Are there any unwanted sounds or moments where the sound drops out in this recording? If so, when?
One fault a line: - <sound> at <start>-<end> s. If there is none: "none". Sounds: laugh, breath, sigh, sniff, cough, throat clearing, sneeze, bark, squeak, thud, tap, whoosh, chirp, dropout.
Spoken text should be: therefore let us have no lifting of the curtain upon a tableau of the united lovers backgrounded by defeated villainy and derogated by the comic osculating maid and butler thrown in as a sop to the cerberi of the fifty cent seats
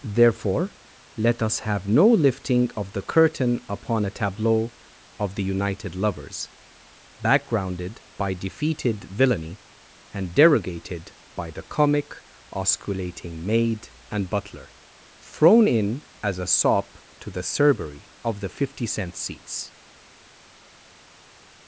none